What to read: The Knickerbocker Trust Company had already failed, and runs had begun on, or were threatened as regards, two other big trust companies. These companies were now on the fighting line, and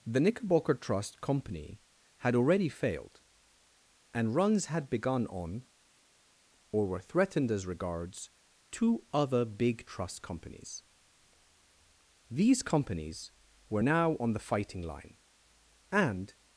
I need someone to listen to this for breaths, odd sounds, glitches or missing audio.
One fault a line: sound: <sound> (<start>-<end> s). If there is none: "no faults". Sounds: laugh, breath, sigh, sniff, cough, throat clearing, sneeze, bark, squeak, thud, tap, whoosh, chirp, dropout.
no faults